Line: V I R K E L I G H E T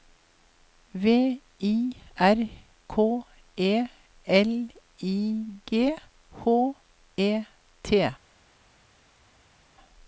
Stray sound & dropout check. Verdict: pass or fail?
pass